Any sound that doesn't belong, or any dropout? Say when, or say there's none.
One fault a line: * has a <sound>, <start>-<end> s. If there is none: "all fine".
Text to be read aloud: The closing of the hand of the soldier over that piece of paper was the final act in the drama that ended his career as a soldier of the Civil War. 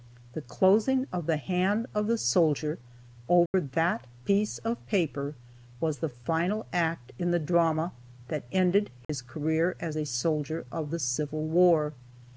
* has a dropout, 3.5-3.5 s
* has a dropout, 9.0-9.1 s